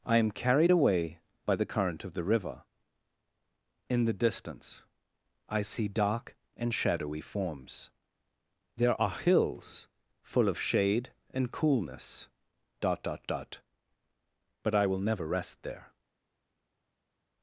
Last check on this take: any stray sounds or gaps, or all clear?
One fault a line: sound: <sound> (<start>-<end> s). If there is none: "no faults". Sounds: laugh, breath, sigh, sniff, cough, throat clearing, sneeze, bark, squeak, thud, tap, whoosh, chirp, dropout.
no faults